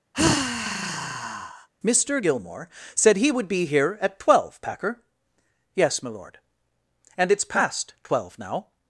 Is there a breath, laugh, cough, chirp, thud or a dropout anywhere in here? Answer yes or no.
yes